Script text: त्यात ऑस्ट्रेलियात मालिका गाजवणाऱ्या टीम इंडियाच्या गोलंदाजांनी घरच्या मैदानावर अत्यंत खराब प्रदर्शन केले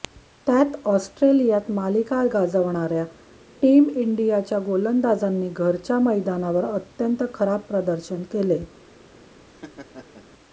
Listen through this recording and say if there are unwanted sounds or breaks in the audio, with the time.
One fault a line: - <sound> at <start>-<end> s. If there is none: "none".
- laugh at 9.5-10.3 s